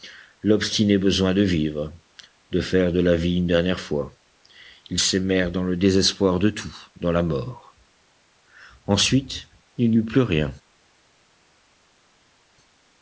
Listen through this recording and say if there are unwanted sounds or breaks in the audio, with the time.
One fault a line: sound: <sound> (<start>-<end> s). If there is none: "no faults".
no faults